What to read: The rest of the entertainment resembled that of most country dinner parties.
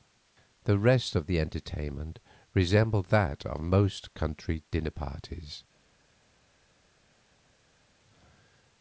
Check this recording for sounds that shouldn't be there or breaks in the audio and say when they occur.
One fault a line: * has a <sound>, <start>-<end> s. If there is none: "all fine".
all fine